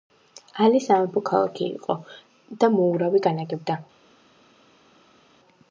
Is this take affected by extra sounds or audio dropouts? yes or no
no